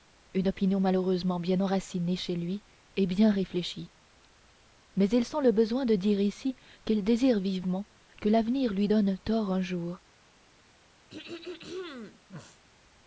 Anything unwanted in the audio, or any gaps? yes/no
yes